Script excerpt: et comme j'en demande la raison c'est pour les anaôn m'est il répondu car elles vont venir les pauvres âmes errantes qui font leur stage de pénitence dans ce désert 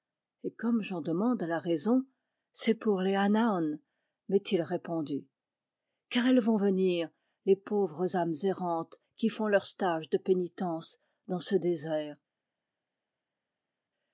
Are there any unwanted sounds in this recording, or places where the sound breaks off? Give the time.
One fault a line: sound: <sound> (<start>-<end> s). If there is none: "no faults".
no faults